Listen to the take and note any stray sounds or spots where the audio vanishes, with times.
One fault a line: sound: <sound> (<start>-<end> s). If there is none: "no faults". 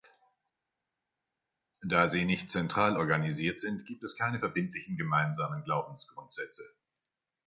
no faults